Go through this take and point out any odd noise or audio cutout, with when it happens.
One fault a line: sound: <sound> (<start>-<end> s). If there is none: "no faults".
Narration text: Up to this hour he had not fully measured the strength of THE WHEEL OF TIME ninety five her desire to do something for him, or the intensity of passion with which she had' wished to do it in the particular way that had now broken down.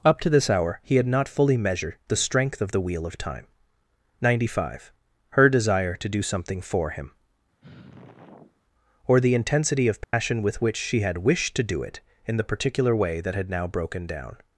sound: sigh (7.6-8.6 s)
sound: dropout (10.0-10.1 s)